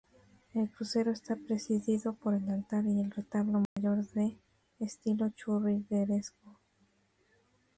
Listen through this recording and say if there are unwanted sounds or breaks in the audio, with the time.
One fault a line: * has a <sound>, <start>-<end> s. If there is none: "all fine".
* has a dropout, 3.6-3.8 s